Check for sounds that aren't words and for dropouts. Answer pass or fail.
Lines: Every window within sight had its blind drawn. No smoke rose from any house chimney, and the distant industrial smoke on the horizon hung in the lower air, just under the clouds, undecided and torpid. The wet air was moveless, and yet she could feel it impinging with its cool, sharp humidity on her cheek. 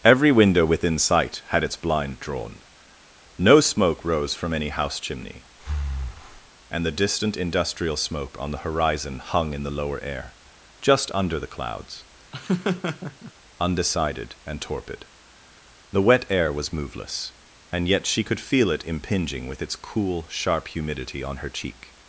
fail